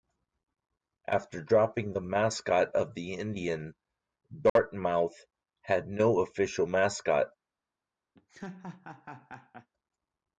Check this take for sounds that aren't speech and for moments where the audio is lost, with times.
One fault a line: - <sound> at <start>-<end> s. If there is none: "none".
- dropout at 4.5-4.6 s
- laugh at 8.1-9.7 s